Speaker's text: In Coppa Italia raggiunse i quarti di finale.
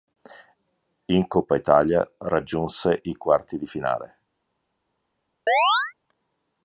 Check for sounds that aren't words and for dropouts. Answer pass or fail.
fail